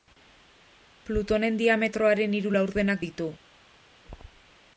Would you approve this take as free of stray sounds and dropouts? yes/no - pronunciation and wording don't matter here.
yes